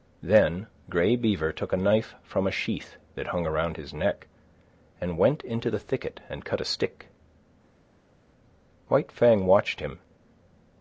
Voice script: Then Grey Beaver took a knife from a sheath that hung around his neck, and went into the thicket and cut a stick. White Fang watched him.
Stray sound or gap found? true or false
false